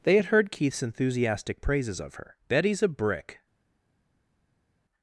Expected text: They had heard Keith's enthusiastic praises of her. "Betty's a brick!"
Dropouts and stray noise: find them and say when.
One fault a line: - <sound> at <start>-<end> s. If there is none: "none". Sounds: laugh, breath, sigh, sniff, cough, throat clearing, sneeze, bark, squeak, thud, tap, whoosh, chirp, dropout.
none